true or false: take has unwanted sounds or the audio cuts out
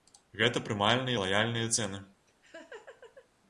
true